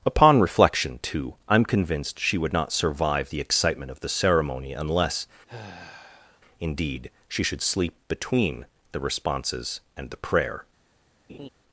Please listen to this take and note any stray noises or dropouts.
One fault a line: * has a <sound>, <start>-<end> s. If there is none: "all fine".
* has a sigh, 5.5-6.4 s
* has a laugh, 11.3-11.5 s